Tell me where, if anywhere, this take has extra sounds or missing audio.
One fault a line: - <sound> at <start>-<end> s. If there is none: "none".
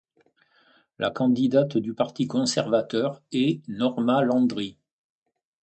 none